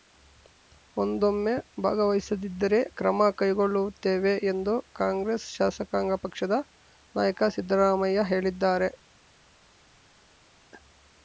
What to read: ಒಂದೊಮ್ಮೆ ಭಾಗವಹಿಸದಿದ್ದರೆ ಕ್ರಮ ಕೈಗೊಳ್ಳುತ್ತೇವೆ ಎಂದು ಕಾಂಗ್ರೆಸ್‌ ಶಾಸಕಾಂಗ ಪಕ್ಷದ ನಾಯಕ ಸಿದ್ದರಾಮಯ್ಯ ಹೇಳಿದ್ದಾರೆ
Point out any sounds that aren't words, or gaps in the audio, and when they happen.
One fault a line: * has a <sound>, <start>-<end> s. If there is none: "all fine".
all fine